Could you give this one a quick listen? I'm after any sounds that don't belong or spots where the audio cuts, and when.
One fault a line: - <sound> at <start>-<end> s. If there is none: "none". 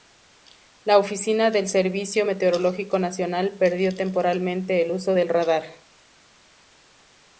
none